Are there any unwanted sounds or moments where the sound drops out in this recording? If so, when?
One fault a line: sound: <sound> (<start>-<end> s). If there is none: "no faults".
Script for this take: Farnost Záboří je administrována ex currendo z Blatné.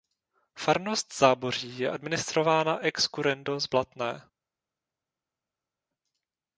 no faults